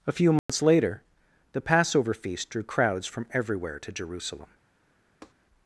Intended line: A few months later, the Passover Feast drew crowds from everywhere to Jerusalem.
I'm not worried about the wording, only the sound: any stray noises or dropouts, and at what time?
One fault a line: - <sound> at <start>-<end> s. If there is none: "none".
- dropout at 0.4-0.5 s
- tap at 5.2-5.3 s